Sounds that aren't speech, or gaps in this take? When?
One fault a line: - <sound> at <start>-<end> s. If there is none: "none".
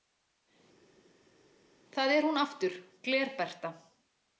none